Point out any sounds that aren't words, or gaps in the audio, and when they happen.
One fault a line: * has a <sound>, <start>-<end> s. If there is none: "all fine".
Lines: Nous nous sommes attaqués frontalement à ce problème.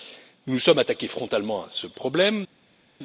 all fine